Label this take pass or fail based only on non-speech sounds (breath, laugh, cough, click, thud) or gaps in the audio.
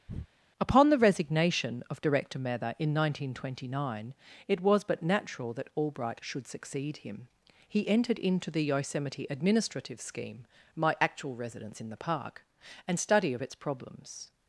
fail